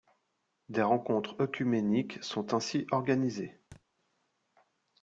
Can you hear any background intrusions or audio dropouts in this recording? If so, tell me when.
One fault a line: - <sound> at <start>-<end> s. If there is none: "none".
- thud at 3.7-3.8 s